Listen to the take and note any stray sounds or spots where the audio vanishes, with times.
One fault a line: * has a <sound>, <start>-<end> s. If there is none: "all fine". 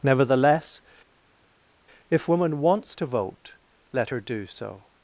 all fine